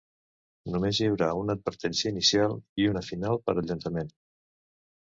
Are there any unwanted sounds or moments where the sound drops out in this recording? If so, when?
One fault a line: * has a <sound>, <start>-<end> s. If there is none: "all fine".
all fine